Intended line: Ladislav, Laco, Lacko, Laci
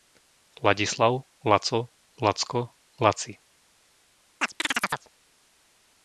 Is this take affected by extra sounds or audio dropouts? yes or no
yes